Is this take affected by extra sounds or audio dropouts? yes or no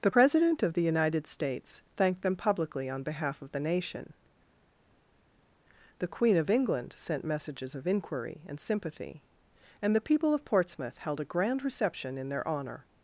no